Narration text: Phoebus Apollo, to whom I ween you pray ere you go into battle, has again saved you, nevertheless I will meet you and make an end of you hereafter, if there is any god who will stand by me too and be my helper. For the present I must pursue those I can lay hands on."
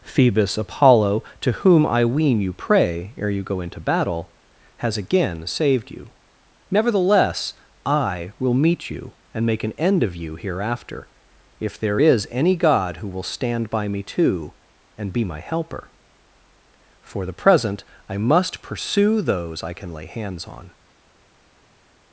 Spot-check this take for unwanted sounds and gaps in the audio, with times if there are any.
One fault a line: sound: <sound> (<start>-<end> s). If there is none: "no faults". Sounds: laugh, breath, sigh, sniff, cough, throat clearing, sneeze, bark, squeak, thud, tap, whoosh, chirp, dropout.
no faults